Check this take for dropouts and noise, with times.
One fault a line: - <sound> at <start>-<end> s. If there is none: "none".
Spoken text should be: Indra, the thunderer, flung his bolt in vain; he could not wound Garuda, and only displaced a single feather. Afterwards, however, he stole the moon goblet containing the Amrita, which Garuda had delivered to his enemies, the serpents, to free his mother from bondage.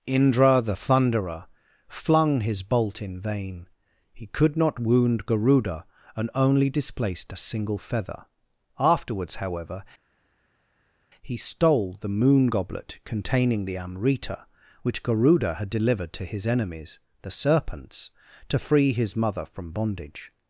none